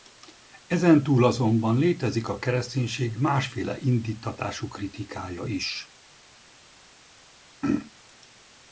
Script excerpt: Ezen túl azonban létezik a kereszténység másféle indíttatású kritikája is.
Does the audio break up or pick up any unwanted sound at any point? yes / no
no